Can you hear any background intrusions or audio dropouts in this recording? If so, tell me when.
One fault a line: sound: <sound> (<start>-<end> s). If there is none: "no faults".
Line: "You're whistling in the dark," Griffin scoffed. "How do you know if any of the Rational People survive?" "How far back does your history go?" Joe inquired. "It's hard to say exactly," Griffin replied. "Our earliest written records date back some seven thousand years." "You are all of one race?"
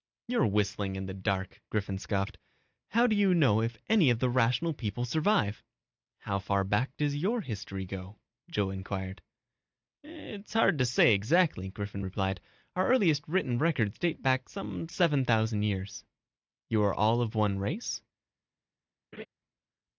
sound: laugh (19.1-19.3 s)